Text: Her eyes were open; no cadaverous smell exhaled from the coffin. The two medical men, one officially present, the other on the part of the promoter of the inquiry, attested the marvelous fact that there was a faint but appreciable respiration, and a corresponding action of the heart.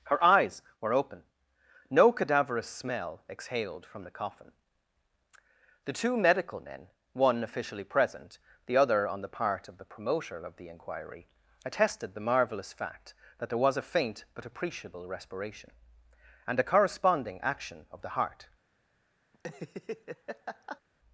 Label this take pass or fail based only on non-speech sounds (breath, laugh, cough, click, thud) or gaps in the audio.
fail